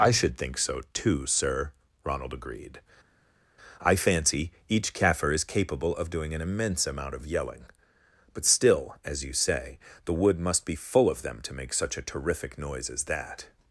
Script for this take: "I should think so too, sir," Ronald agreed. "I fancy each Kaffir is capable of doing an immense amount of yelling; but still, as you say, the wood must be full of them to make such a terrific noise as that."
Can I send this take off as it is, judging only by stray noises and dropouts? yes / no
yes